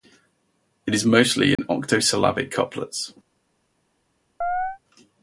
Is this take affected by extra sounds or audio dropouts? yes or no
yes